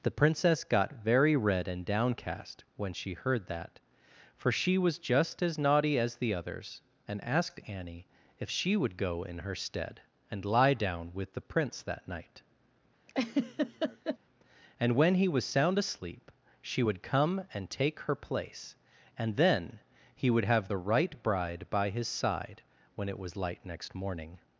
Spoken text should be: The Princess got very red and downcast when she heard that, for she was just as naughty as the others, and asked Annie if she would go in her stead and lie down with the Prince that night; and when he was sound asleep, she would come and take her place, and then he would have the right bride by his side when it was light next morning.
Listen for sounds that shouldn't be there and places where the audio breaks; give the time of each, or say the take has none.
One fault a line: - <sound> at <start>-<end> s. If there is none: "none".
- laugh at 13.1-14.2 s